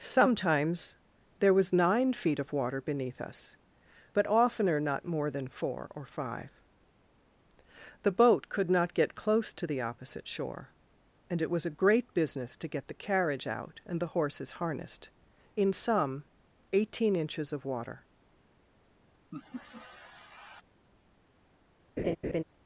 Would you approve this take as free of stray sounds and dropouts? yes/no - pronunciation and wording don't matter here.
no